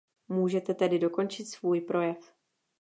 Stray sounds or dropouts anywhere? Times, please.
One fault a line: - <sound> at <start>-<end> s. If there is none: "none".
none